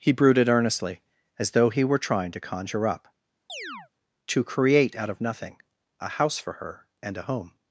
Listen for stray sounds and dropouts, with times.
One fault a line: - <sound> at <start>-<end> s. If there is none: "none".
- chirp at 3.5-3.9 s